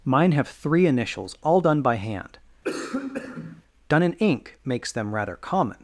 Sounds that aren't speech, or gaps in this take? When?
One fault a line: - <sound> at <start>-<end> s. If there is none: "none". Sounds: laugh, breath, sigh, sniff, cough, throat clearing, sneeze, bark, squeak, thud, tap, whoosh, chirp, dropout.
- cough at 2.6-3.6 s